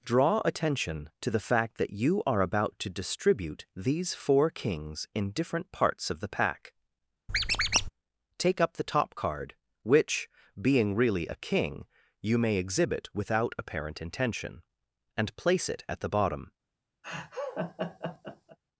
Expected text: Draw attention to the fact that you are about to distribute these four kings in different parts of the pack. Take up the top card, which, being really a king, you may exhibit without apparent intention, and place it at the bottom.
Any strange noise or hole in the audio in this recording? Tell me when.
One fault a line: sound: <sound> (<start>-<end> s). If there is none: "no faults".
sound: squeak (7.3-7.9 s)
sound: laugh (17.0-18.6 s)